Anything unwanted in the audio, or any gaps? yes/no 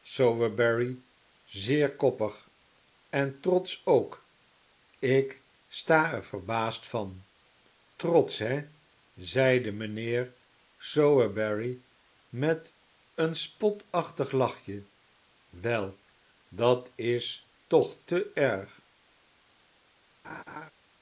yes